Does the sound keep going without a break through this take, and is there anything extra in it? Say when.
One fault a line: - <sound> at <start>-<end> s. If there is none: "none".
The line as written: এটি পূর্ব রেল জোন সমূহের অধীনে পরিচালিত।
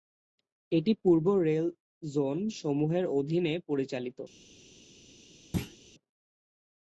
- thud at 5.5-5.8 s